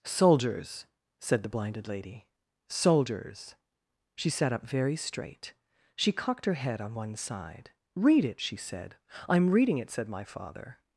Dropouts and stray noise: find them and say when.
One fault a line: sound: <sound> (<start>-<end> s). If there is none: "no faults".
no faults